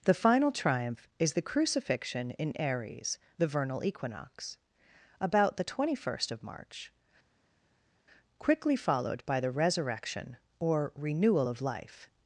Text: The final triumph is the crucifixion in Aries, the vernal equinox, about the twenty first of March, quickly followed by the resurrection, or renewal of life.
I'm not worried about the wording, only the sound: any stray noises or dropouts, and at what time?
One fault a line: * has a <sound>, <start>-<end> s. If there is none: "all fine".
all fine